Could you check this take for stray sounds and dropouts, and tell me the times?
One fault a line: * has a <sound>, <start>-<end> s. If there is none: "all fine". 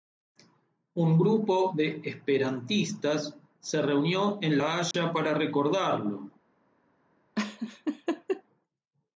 * has a dropout, 4.9-4.9 s
* has a laugh, 7.4-8.4 s